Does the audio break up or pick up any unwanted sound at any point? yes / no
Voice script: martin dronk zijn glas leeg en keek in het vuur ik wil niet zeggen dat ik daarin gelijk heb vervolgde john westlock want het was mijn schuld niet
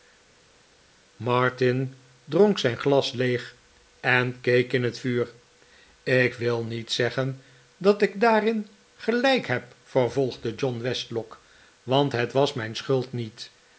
no